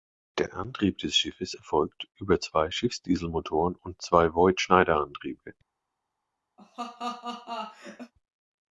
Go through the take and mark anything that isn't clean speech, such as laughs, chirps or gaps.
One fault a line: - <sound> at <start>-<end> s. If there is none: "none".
- laugh at 6.6-8.1 s